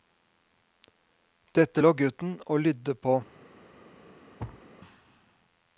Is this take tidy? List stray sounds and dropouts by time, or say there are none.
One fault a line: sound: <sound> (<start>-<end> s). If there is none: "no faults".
sound: thud (4.4-4.7 s)